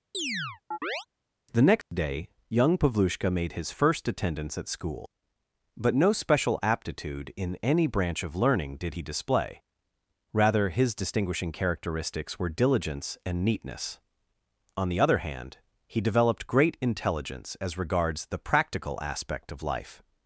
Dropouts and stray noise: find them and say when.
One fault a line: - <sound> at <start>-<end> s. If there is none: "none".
- chirp at 0.1-1.1 s
- dropout at 1.8-1.9 s